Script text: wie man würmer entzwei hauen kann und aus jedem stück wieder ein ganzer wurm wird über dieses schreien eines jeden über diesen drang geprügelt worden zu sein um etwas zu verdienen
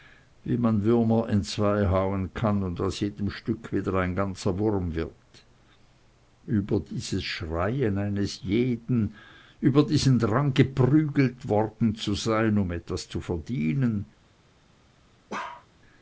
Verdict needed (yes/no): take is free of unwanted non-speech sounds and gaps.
no